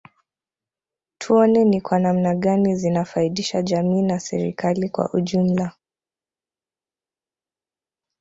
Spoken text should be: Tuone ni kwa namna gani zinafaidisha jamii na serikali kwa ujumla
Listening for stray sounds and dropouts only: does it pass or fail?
pass